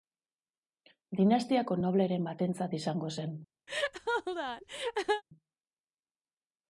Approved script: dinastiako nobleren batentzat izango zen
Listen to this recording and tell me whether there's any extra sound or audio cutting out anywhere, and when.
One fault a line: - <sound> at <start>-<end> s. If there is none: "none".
- laugh at 3.7-5.2 s